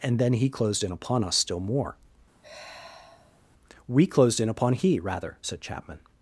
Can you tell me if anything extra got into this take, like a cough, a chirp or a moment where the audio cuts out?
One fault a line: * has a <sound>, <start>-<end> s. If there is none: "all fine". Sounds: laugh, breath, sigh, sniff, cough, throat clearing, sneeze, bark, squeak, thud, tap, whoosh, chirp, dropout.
* has a sigh, 2.4-3.4 s